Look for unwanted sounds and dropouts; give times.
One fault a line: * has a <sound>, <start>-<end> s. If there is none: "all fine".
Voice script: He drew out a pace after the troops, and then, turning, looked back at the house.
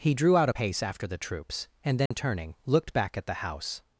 * has a dropout, 2.1-2.1 s